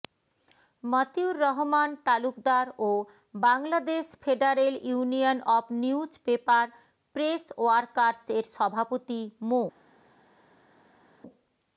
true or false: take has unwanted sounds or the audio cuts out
false